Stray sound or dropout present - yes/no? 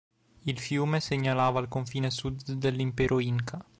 no